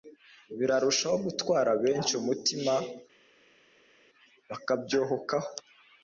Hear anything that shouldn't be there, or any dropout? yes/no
no